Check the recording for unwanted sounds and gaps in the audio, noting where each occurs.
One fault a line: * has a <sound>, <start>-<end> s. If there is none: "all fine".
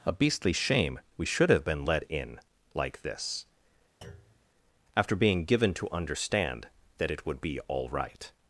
* has a thud, 4.0-4.5 s